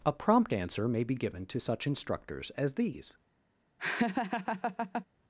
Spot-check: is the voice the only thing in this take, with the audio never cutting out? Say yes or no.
no